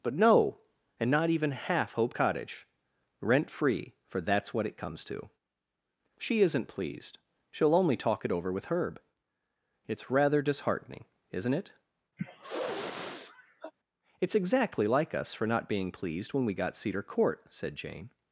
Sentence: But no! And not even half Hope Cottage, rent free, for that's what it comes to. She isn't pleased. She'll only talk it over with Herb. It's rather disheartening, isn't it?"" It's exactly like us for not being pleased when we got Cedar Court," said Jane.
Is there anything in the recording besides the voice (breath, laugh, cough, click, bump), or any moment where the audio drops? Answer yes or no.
yes